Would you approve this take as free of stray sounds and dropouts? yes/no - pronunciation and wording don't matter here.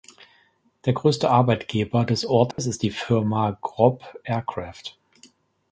no